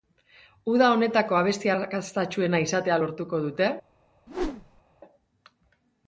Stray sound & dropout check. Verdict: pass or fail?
fail